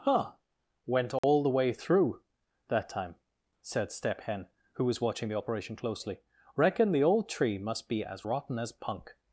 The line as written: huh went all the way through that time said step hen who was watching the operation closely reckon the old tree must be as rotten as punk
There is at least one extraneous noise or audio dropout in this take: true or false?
true